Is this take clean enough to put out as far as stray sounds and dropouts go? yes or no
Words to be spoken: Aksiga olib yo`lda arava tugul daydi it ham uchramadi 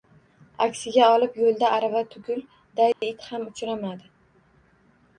no